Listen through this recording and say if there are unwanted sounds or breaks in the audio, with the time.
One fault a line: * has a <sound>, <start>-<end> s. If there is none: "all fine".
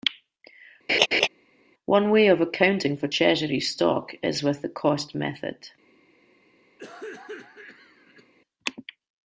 * has a laugh, 0.9-1.3 s
* has a cough, 6.8-8.3 s